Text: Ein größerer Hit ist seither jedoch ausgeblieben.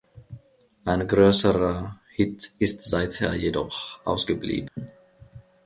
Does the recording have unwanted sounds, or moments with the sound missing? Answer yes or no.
yes